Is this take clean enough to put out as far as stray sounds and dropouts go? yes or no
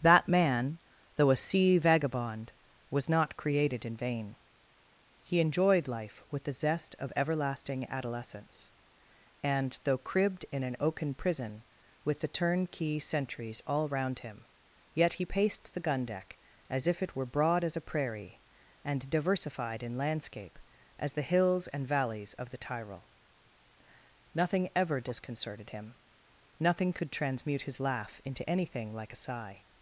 yes